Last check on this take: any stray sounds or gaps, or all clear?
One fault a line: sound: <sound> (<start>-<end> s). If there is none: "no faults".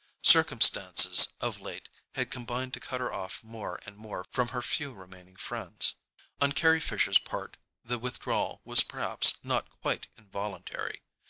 no faults